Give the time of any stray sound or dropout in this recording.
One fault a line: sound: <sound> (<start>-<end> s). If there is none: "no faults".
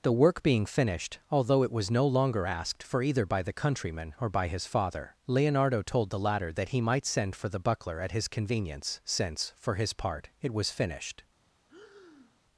sound: breath (11.7-12.4 s)